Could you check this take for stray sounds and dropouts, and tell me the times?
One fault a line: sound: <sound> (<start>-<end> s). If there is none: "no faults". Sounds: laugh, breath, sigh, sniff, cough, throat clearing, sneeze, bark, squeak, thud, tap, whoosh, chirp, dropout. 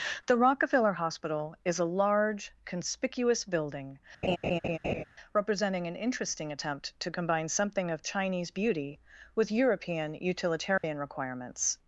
sound: laugh (4.2-5.0 s)
sound: dropout (10.8-10.8 s)